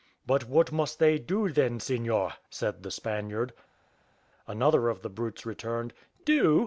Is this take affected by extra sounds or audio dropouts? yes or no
no